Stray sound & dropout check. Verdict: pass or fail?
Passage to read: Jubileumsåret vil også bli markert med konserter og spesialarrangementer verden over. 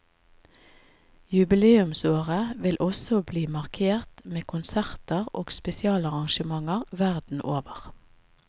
pass